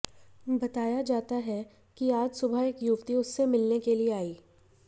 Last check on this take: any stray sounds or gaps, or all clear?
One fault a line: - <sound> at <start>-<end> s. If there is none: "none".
none